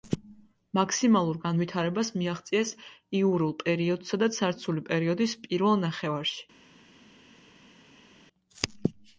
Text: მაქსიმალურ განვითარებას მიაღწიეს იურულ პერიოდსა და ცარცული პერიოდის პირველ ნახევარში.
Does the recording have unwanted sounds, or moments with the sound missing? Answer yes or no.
no